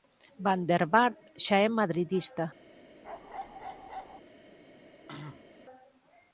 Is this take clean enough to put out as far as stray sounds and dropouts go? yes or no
no